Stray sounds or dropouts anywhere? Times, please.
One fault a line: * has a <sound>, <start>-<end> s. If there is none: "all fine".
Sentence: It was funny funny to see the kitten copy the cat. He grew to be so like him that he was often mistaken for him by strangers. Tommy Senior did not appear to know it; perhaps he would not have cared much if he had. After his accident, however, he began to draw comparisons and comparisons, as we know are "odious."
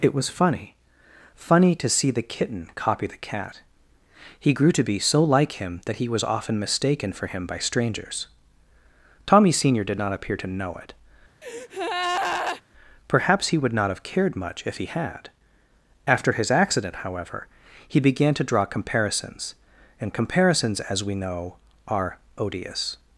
* has a breath, 11.4-12.6 s